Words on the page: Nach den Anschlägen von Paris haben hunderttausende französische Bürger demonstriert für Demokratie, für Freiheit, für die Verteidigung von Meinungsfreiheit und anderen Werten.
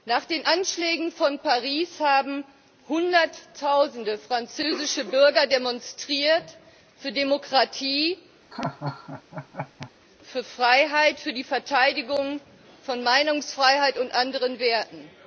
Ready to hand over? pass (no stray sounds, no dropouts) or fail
fail